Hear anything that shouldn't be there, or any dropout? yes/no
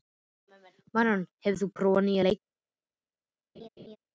yes